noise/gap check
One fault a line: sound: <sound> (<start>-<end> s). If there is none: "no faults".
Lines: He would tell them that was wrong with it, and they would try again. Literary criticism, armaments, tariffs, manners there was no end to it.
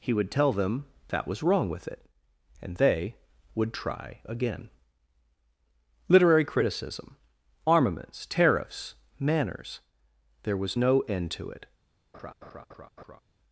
sound: laugh (12.1-13.2 s)